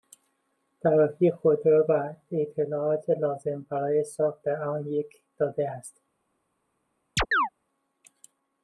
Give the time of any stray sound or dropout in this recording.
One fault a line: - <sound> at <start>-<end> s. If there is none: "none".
- chirp at 7.2-7.5 s